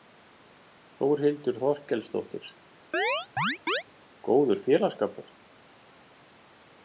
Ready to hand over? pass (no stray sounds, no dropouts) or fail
fail